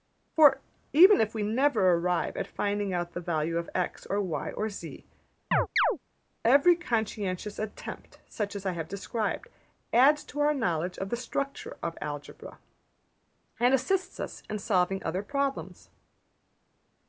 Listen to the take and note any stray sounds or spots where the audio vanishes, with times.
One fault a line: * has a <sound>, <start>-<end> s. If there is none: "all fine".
* has a chirp, 5.5-6.0 s